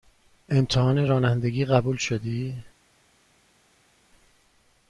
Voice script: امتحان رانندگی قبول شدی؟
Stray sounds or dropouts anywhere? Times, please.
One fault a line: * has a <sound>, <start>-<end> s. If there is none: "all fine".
all fine